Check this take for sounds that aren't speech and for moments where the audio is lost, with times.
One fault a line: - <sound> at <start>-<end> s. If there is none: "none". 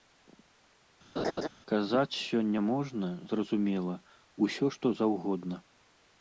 - laugh at 1.2-1.5 s